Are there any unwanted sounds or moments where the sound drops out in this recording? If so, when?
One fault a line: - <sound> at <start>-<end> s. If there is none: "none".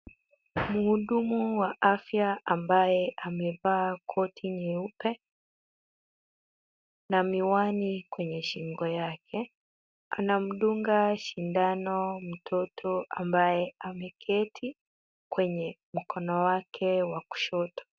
none